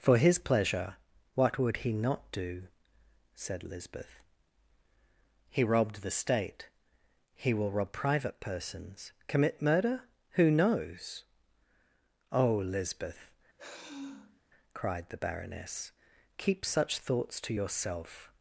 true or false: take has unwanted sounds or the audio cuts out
true